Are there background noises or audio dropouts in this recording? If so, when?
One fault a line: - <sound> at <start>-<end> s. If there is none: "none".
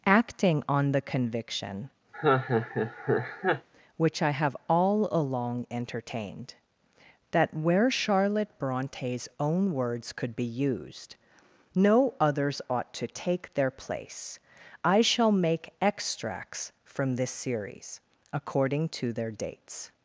- laugh at 2.1-3.7 s